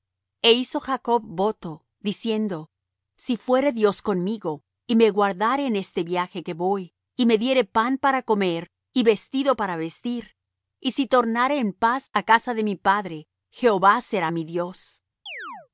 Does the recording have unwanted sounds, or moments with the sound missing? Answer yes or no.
yes